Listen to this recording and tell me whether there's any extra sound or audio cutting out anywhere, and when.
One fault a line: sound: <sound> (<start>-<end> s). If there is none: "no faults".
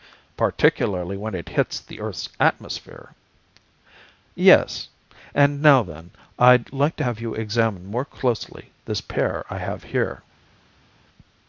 no faults